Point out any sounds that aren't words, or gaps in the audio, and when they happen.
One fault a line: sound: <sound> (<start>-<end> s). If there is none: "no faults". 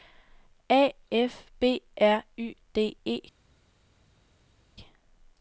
no faults